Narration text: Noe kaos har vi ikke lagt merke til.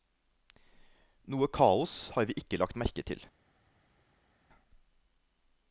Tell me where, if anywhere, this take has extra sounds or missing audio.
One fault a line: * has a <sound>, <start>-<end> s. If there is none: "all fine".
all fine